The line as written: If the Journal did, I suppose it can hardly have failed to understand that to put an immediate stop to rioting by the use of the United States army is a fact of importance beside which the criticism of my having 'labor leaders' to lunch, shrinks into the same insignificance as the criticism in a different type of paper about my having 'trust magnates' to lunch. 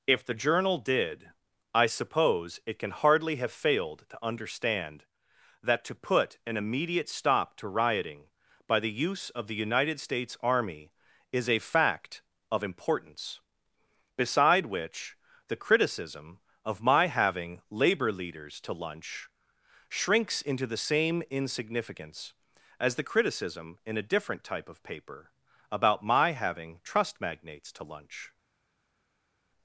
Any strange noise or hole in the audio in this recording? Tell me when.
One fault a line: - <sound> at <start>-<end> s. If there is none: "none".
none